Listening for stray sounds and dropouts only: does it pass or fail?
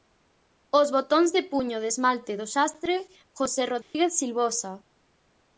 fail